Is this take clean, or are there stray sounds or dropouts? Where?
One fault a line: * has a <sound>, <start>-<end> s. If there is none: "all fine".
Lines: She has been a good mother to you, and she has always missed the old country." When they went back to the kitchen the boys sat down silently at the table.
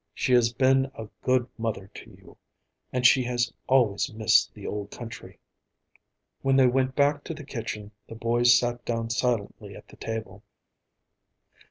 all fine